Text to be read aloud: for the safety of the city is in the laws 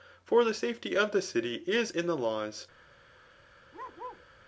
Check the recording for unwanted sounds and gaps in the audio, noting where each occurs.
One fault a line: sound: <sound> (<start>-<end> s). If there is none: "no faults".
sound: bark (3.7-4.3 s)